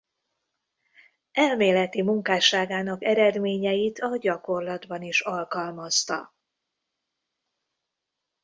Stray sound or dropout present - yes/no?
no